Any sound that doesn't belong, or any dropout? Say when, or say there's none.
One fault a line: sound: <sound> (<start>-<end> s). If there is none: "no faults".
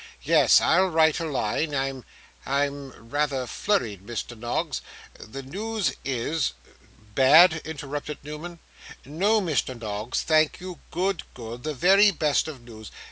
no faults